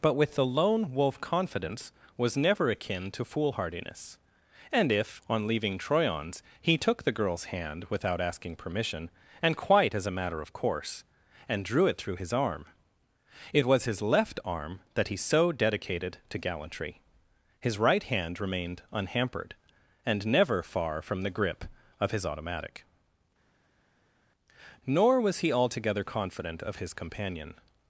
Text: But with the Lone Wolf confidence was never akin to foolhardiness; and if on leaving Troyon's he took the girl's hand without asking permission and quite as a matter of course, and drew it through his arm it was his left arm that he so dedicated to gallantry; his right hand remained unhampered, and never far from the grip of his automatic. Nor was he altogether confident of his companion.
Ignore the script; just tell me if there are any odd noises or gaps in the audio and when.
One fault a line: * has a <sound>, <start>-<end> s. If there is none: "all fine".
all fine